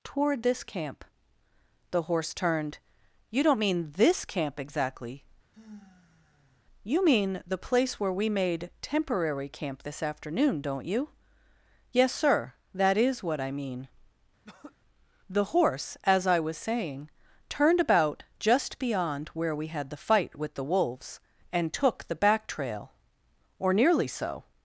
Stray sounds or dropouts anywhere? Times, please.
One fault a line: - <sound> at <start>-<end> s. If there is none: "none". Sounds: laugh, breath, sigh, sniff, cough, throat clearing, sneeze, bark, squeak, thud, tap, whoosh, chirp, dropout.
- sigh at 5.5-6.6 s
- throat clearing at 14.4-14.8 s